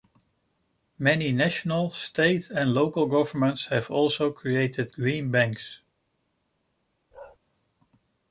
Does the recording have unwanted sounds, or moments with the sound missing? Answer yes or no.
yes